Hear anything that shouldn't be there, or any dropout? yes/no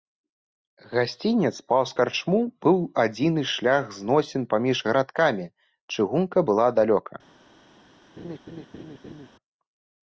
yes